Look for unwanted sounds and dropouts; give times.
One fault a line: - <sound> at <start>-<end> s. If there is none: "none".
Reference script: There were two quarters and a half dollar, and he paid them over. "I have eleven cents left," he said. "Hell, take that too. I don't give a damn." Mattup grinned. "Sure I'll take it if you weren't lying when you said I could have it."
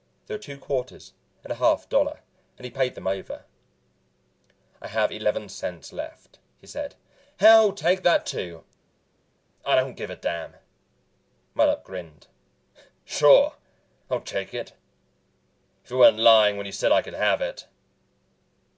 none